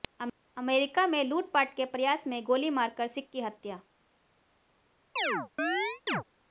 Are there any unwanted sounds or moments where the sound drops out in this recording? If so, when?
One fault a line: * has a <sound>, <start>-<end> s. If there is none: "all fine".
* has a chirp, 5.2-6.2 s